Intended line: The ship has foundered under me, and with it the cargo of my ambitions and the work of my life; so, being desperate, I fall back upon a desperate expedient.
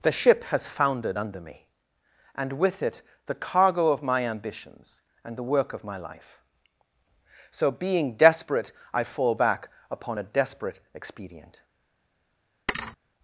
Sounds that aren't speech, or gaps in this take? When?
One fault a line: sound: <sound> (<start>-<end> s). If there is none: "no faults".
sound: thud (12.7-13.0 s)